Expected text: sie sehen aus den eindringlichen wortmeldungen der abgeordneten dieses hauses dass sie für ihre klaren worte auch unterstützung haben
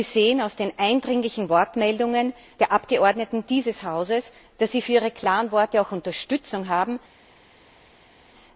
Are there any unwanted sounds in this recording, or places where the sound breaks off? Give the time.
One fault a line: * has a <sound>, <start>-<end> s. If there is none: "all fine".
all fine